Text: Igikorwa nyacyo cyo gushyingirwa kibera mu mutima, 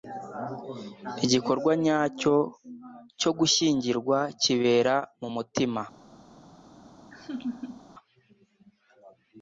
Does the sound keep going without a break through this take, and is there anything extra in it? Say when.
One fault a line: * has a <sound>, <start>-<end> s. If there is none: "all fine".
* has a laugh, 7.1-7.9 s